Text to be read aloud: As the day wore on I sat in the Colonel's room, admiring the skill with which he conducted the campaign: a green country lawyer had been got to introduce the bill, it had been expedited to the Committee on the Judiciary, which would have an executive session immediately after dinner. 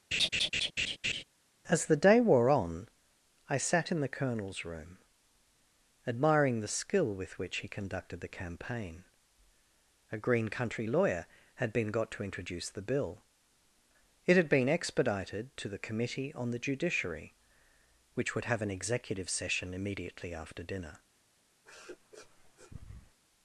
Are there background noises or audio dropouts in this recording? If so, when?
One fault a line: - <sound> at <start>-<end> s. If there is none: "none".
- laugh at 0.1-1.2 s
- sniff at 21.7-23.2 s